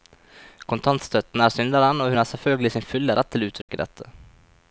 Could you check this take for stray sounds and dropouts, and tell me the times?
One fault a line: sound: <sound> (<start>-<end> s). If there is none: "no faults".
sound: dropout (3.6-3.7 s)